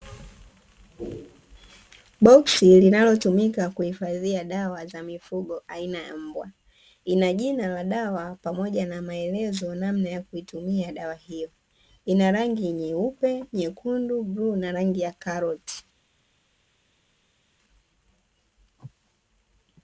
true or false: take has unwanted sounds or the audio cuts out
false